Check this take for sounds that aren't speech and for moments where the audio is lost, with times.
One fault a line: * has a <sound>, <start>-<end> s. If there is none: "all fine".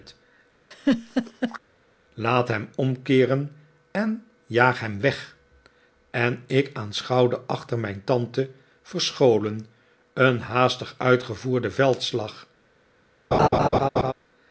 * has a laugh, 0.7-1.6 s
* has a laugh, 13.3-14.1 s